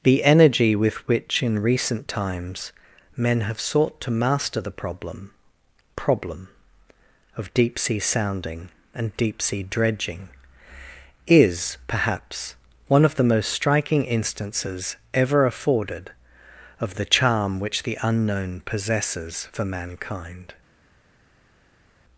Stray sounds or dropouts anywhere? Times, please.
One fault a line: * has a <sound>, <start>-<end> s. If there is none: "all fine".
all fine